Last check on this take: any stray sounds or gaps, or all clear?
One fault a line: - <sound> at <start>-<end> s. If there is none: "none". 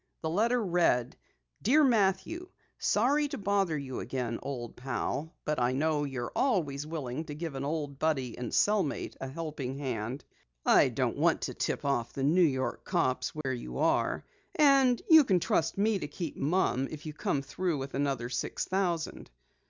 - dropout at 13.4-13.5 s